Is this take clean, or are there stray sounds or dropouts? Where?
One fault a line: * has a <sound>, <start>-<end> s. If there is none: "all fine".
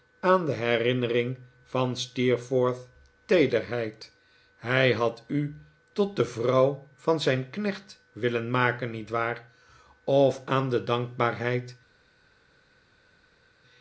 all fine